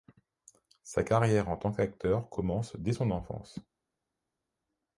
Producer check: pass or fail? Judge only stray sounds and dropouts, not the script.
pass